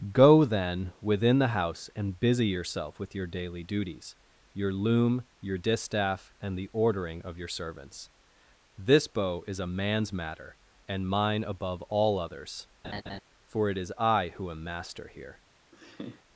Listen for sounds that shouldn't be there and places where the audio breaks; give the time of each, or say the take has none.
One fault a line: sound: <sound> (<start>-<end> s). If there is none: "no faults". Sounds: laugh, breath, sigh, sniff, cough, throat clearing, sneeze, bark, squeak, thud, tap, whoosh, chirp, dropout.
sound: laugh (12.8-13.2 s)
sound: laugh (15.7-16.2 s)